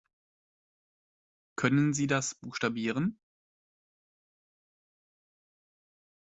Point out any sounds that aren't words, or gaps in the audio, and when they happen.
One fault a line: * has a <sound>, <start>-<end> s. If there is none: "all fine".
all fine